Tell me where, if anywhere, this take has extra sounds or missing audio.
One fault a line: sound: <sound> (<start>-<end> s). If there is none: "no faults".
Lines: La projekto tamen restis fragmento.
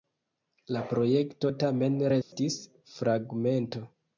sound: dropout (2.2-2.3 s)